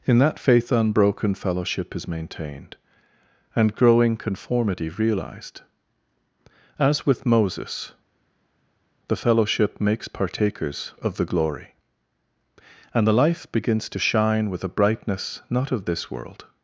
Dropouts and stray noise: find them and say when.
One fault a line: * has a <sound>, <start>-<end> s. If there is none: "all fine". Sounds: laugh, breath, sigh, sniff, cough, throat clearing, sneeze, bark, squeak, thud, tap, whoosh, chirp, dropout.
all fine